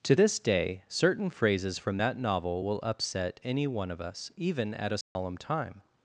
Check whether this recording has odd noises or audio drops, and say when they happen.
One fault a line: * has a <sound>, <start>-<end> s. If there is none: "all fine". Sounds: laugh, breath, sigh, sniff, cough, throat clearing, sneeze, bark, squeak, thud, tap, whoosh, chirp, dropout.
* has a dropout, 5.0-5.2 s